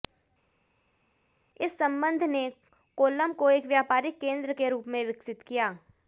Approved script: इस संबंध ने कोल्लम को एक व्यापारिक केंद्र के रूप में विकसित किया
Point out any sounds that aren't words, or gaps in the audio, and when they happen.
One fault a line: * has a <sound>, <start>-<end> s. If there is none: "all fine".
all fine